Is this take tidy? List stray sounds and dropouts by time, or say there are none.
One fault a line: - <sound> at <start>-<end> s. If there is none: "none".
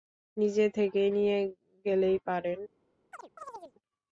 - chirp at 3.1-3.7 s